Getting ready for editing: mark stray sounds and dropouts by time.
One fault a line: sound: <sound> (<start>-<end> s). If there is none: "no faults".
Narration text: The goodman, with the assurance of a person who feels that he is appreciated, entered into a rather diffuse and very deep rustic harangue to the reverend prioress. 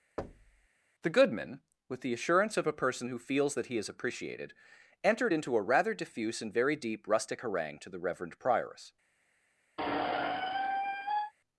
sound: thud (0.2-0.7 s)
sound: squeak (9.8-11.3 s)